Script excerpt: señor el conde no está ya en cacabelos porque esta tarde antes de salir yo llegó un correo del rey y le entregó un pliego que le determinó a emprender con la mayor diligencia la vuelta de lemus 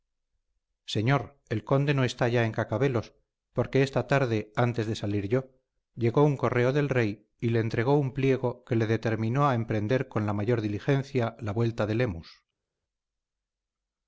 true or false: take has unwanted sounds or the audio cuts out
false